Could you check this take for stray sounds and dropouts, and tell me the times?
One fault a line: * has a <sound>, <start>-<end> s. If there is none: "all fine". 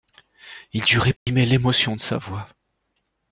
* has a dropout, 1.2-1.3 s